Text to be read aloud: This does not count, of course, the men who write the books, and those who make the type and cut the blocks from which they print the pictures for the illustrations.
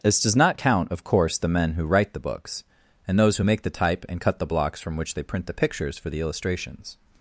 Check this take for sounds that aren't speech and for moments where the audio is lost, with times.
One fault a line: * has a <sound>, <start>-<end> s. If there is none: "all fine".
all fine